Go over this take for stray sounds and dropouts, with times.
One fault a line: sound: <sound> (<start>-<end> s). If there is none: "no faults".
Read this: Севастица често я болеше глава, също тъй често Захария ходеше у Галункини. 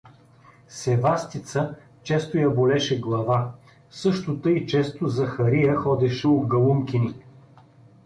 no faults